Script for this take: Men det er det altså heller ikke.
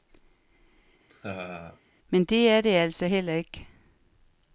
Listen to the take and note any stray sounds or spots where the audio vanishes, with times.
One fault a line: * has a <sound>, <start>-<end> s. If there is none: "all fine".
* has a laugh, 1.1-1.8 s